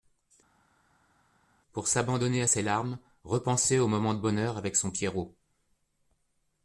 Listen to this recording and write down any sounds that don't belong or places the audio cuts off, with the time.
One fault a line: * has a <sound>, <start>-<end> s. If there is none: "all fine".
all fine